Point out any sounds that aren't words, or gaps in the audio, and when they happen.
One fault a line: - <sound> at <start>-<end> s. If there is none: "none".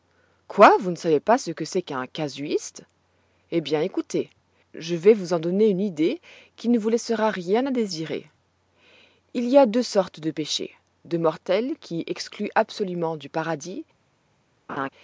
- laugh at 14.7-14.9 s